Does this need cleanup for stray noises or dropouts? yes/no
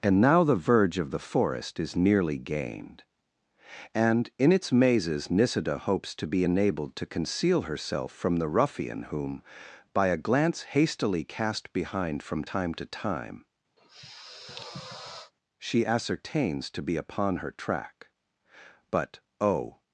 yes